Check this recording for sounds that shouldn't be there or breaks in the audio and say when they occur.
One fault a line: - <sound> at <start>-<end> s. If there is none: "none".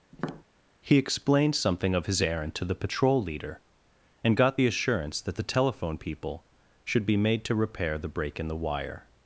- tap at 0.1-0.4 s